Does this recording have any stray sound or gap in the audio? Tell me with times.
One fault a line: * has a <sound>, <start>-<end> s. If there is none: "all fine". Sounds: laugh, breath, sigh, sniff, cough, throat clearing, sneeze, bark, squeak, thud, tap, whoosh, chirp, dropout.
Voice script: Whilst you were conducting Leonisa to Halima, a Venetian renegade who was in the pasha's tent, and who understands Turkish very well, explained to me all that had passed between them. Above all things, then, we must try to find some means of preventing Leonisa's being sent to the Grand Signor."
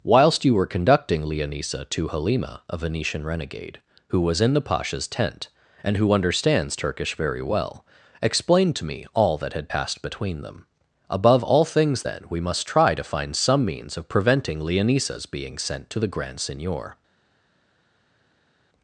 all fine